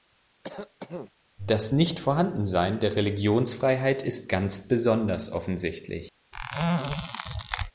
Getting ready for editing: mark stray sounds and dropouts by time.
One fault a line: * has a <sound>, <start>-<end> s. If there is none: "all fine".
* has a cough, 0.4-1.1 s
* has a squeak, 6.3-7.7 s